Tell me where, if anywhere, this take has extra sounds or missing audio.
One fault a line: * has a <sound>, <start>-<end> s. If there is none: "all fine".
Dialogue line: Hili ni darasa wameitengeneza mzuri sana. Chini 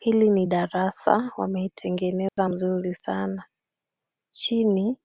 * has a dropout, 2.3-2.4 s